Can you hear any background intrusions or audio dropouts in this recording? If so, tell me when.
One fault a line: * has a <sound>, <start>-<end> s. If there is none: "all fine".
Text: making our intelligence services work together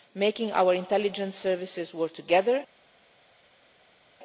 all fine